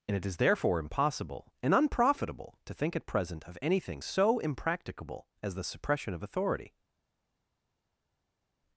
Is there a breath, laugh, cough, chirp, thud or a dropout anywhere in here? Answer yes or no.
no